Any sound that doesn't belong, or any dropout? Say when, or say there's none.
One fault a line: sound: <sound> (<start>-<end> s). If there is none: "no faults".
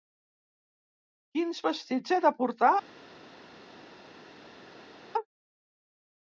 no faults